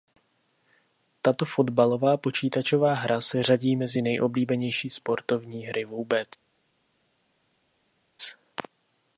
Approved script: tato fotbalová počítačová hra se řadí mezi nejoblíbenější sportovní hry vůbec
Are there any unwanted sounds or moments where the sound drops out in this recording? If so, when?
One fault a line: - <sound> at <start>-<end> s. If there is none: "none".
none